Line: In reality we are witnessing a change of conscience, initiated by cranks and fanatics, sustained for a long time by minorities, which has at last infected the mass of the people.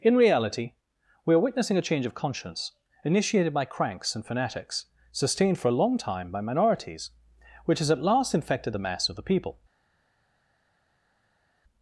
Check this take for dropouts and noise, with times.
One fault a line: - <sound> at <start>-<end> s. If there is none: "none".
none